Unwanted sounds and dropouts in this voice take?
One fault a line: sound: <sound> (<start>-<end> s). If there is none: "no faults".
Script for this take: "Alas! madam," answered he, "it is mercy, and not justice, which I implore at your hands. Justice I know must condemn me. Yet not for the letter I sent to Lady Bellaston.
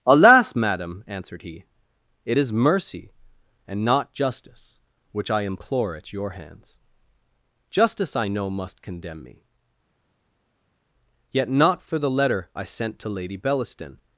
no faults